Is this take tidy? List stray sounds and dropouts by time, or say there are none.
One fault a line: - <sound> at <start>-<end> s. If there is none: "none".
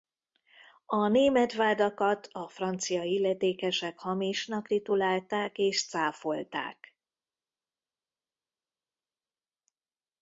none